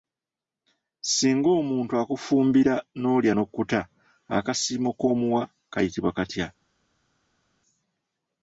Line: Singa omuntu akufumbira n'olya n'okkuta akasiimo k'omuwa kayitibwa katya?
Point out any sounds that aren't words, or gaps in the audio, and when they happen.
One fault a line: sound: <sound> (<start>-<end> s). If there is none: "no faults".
no faults